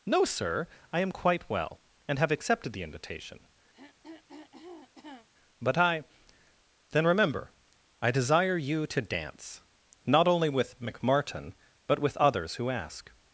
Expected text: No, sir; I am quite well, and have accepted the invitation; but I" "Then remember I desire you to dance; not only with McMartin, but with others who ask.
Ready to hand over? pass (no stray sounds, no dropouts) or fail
fail